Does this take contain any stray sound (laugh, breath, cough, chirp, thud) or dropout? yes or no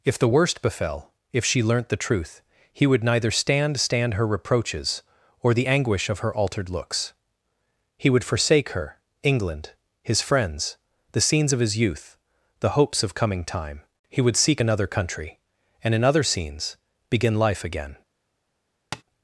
yes